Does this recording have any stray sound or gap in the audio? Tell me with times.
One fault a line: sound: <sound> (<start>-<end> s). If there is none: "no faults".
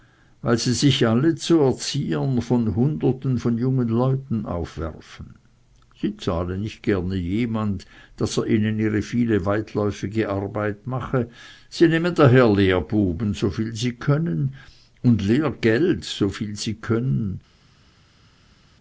no faults